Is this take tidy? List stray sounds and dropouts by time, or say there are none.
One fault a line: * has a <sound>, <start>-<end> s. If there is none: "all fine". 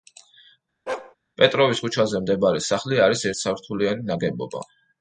* has a bark, 0.9-1.2 s